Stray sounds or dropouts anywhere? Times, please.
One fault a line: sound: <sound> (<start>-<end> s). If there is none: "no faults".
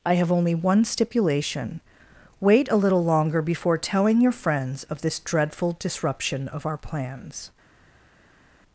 no faults